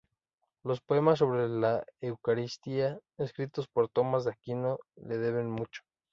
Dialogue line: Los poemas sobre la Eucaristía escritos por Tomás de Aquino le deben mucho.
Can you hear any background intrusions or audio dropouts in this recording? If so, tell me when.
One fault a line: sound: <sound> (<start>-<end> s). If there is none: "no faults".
no faults